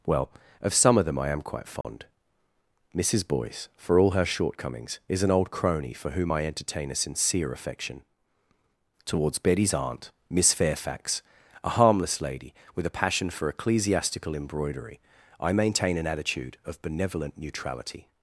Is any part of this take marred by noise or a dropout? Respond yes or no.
yes